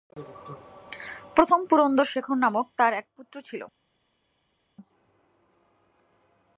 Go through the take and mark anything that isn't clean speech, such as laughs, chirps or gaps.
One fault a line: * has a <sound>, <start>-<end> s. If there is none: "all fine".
all fine